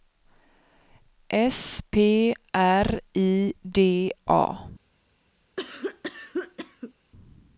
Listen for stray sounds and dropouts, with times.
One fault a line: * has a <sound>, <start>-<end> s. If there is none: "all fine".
* has a cough, 5.6-6.9 s